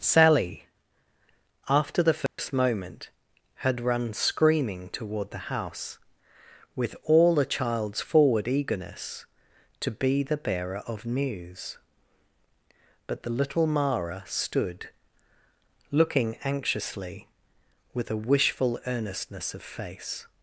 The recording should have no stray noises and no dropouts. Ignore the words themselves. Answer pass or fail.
fail